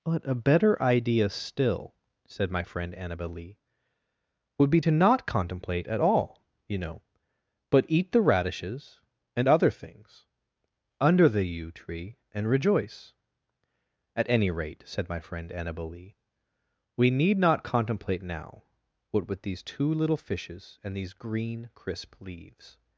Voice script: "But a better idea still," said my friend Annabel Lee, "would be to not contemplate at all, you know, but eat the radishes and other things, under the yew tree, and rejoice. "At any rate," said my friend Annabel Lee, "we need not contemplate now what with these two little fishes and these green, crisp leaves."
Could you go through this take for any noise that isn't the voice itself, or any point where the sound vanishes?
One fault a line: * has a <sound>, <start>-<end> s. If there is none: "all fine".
all fine